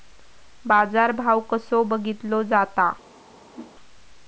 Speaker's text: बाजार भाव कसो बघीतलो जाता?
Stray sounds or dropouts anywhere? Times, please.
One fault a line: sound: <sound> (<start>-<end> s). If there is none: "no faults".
sound: whoosh (3.5-3.7 s)